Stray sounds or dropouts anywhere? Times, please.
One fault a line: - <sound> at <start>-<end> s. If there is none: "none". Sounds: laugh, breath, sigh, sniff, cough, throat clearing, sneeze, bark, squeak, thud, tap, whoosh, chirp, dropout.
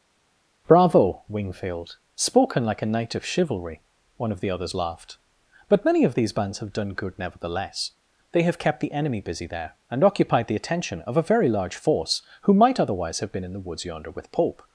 none